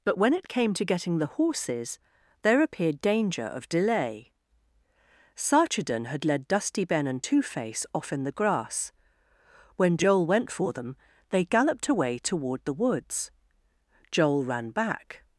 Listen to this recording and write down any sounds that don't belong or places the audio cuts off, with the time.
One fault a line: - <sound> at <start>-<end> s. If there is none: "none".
none